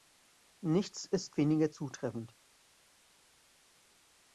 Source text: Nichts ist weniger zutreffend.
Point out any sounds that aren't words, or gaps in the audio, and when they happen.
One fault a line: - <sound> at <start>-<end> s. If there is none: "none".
none